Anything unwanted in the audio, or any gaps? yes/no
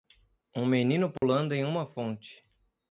yes